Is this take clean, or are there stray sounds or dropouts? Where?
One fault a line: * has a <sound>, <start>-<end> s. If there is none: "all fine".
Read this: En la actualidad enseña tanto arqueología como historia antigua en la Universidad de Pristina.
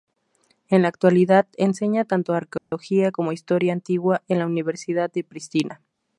* has a dropout, 2.6-2.7 s